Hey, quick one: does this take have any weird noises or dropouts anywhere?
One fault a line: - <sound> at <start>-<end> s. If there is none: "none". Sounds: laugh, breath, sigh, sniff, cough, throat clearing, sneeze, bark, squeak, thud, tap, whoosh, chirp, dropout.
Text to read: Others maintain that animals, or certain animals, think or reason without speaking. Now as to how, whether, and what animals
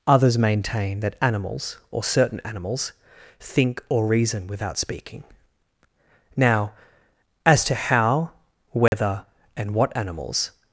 - dropout at 8.9-8.9 s